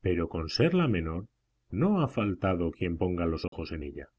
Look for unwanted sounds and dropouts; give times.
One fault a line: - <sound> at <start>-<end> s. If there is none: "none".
- dropout at 3.5-3.5 s